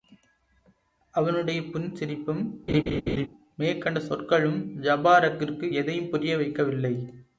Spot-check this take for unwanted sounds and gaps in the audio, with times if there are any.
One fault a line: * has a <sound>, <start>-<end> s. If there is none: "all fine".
* has a laugh, 2.7-3.3 s